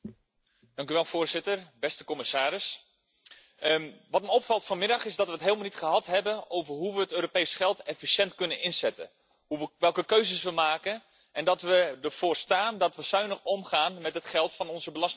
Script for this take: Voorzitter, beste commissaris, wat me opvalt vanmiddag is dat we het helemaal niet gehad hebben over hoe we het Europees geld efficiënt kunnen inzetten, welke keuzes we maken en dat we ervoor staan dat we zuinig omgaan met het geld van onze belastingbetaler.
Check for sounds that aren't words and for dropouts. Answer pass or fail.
pass